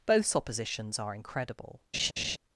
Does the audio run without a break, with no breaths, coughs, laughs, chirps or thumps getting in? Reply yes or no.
no